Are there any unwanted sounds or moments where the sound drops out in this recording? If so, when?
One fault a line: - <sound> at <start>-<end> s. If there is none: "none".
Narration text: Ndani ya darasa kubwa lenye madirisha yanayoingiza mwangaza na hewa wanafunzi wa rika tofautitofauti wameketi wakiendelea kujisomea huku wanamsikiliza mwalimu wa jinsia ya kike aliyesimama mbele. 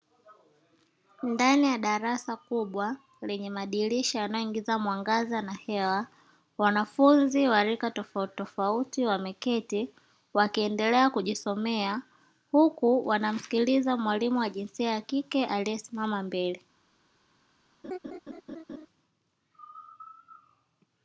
- laugh at 17.8-18.9 s